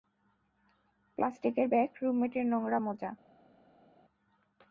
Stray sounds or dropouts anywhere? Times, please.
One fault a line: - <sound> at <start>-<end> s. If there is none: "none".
none